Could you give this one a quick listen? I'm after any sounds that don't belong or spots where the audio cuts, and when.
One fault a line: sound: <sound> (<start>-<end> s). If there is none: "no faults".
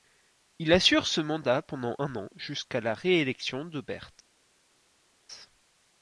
no faults